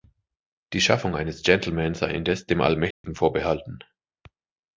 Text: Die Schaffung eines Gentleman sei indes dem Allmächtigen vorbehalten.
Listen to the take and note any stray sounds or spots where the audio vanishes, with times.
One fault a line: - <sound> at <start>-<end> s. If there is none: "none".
- dropout at 2.9-3.0 s